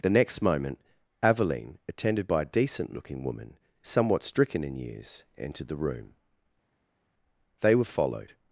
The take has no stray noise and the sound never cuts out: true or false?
true